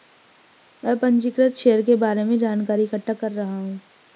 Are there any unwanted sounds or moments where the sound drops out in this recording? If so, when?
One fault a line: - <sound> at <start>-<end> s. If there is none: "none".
none